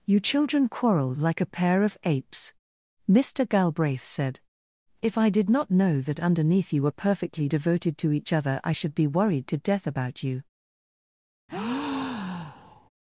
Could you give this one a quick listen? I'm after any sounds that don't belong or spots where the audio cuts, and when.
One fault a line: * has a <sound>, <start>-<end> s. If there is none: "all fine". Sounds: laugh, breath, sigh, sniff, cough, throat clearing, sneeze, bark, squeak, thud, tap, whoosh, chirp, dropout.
* has a breath, 11.5-12.9 s